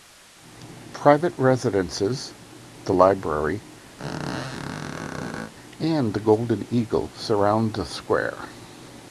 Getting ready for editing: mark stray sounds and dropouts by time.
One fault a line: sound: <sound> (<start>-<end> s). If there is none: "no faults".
sound: squeak (4.0-5.5 s)